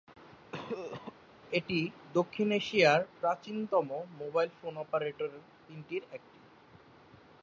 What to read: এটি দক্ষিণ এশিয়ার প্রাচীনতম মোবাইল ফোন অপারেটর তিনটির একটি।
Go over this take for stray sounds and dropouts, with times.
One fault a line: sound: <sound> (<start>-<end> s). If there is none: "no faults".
sound: cough (0.5-1.1 s)